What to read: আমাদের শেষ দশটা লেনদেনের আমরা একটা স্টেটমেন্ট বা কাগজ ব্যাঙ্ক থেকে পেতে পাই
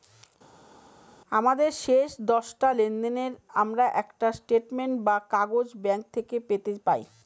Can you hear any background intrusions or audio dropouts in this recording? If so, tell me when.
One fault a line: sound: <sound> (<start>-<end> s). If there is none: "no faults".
no faults